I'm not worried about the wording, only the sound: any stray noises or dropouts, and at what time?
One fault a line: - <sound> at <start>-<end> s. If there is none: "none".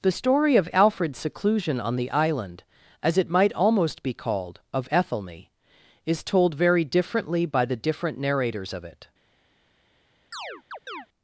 - chirp at 10.3-11.1 s